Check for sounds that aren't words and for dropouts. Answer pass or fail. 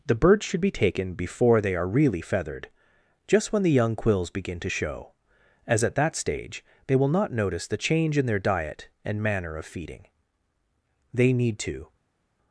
pass